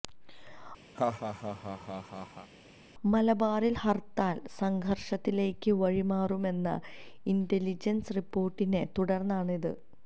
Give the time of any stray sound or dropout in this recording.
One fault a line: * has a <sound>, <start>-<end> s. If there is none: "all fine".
* has a laugh, 0.9-2.5 s